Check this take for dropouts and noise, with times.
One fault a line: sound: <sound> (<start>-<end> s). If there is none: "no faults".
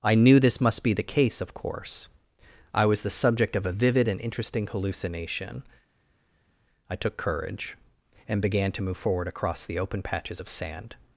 no faults